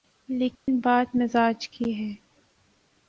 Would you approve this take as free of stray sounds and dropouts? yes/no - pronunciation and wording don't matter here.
no